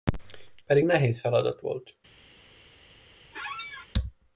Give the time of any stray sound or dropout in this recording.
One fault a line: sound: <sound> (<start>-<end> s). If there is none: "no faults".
sound: squeak (3.3-3.9 s)